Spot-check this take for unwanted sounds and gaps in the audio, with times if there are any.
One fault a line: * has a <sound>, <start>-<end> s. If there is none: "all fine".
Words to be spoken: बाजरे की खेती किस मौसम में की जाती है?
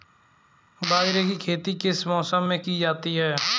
all fine